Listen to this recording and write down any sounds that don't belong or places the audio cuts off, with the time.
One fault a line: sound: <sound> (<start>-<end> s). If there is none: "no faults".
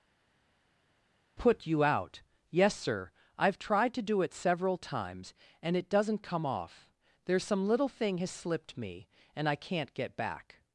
no faults